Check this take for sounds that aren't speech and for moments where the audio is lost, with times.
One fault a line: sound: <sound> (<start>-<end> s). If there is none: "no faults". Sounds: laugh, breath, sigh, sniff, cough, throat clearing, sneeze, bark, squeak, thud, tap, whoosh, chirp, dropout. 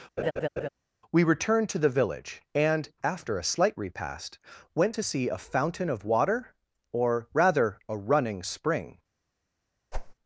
sound: laugh (0.2-0.7 s)
sound: whoosh (9.9-10.1 s)